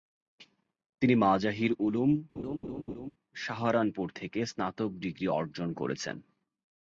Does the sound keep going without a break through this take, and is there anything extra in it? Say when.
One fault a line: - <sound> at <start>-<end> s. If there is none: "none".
- laugh at 2.4-3.1 s